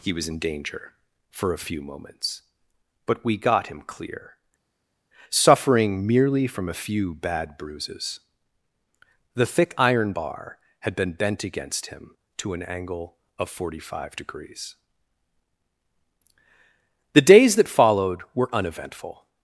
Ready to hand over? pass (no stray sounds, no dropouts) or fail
pass